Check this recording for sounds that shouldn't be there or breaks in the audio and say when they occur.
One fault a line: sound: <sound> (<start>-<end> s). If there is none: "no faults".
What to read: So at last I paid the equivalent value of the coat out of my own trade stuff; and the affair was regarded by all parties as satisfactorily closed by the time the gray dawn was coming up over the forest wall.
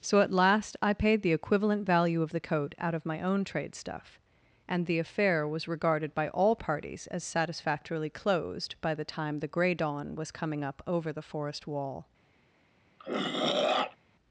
sound: throat clearing (13.0-14.0 s)